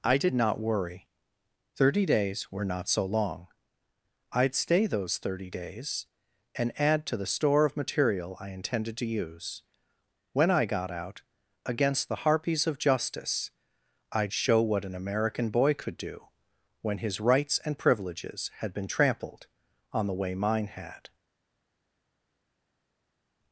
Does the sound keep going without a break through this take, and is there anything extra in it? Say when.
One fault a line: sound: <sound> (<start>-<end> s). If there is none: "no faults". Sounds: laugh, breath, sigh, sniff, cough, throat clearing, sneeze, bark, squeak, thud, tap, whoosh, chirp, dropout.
no faults